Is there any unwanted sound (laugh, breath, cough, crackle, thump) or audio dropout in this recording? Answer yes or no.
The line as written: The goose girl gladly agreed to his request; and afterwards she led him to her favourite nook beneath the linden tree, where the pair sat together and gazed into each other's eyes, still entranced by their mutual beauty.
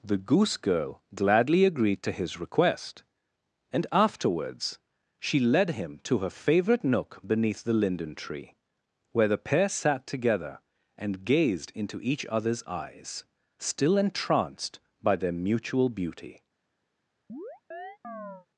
yes